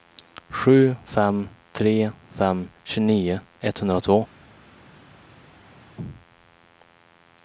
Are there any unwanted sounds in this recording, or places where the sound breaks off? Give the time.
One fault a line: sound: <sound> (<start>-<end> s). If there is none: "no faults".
no faults